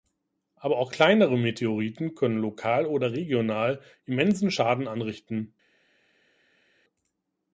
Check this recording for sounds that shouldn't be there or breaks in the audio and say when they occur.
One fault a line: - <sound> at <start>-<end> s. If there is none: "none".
none